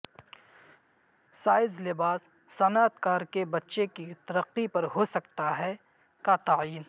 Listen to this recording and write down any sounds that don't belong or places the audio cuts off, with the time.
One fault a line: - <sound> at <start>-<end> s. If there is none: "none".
none